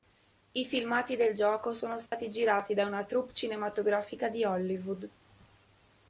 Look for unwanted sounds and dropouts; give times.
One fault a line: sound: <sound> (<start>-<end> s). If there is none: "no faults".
sound: dropout (2.1-2.1 s)